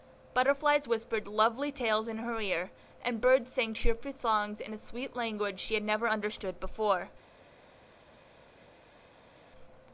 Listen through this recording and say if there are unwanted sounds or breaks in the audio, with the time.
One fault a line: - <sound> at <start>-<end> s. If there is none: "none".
none